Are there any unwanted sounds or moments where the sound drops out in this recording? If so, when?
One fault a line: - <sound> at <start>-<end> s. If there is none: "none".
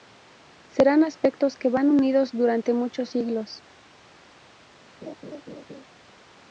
- laugh at 5.0-5.8 s